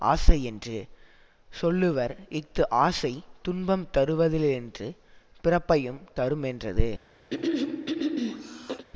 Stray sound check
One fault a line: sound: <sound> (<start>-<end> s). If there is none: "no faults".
sound: throat clearing (7.3-8.9 s)